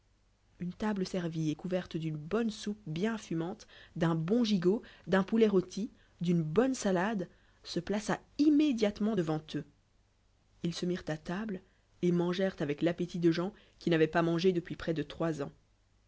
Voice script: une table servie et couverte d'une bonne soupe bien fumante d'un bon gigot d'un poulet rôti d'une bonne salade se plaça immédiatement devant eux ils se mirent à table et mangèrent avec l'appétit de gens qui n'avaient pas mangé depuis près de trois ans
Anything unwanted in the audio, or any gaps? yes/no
no